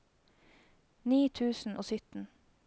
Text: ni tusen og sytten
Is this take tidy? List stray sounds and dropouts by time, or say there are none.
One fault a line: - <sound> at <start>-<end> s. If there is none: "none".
none